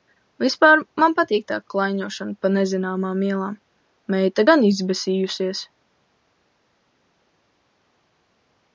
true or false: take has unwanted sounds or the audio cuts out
false